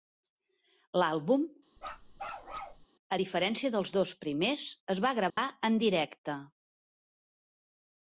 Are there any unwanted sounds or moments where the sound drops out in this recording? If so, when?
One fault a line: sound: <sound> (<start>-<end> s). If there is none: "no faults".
sound: bark (1.8-2.9 s)
sound: dropout (5.3-5.4 s)